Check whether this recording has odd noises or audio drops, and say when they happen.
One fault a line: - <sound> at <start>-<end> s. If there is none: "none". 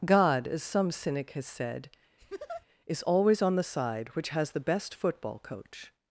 - laugh at 2.2-2.7 s